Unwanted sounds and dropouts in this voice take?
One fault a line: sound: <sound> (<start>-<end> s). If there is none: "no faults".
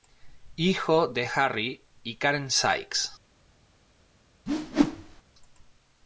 sound: whoosh (4.5-5.2 s)